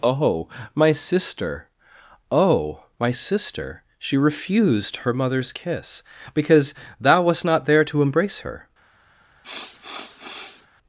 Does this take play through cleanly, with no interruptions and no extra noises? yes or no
no